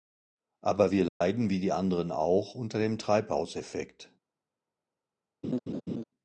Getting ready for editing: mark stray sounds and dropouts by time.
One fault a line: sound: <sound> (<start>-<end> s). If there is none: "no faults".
sound: dropout (1.1-1.2 s)
sound: laugh (5.4-6.0 s)